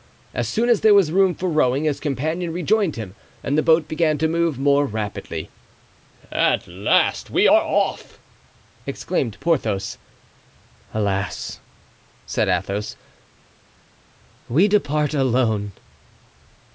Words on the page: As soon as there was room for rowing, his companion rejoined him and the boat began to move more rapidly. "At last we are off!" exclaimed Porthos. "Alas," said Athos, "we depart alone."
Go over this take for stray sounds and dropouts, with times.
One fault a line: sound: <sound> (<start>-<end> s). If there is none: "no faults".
no faults